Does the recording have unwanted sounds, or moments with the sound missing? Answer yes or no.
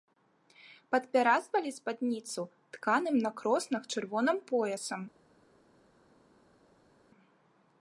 no